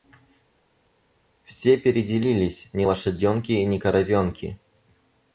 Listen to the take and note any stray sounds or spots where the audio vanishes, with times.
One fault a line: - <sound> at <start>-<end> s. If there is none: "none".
none